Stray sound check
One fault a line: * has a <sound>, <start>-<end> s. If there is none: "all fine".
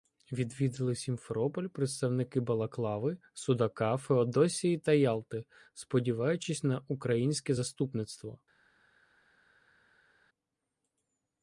all fine